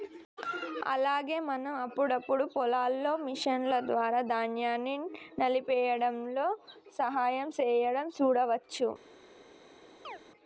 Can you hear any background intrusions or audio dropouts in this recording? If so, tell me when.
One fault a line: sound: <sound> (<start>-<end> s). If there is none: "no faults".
sound: chirp (10.0-10.2 s)